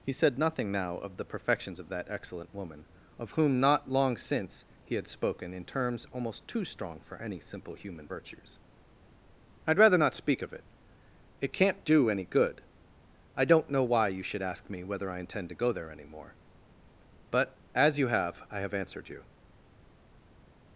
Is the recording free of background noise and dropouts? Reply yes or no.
yes